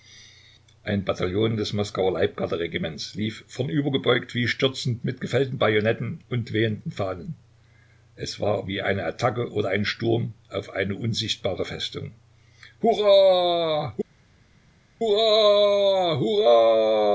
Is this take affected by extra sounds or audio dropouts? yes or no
no